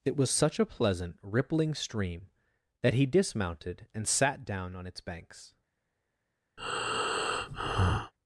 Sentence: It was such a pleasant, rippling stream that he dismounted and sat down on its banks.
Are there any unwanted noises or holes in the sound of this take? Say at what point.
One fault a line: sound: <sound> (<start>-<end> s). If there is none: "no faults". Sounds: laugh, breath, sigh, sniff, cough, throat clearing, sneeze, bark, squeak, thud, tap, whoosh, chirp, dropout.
sound: breath (6.6-8.1 s)